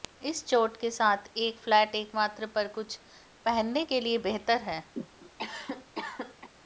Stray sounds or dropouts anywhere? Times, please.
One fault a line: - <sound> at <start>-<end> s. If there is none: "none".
- cough at 5.0-6.5 s